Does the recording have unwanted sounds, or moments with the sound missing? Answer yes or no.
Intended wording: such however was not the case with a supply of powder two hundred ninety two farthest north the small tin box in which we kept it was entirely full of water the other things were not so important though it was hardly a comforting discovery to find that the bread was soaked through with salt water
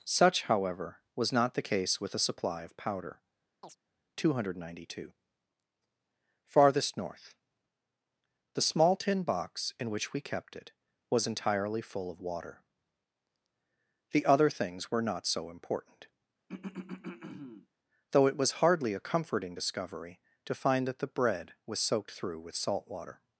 yes